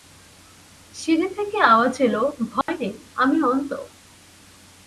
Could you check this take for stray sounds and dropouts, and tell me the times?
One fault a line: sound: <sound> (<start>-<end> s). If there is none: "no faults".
sound: dropout (2.6-2.7 s)